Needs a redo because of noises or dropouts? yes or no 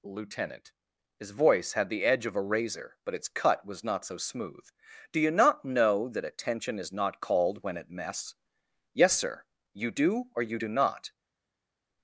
no